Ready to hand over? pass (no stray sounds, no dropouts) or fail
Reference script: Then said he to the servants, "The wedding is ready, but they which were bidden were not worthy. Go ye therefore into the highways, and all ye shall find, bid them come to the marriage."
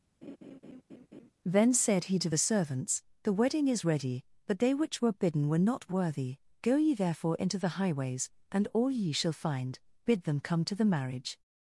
fail